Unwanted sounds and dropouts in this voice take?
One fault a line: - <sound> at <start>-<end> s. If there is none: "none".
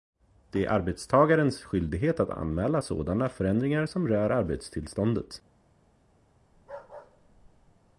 - bark at 6.5-7.9 s